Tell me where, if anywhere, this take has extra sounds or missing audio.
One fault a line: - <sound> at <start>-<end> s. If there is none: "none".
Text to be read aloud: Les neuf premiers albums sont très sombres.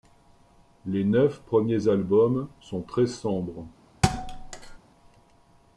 - thud at 4.0-4.8 s